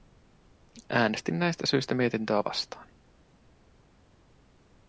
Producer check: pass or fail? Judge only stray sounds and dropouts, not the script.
pass